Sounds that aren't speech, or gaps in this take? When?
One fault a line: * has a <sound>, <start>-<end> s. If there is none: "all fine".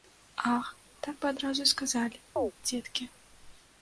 * has a chirp, 2.4-2.5 s